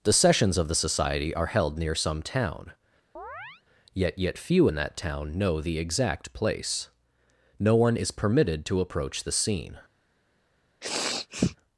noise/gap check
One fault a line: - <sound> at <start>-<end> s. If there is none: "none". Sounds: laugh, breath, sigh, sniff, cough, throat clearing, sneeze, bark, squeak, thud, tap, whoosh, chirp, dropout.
- chirp at 3.2-3.6 s
- sniff at 10.8-11.6 s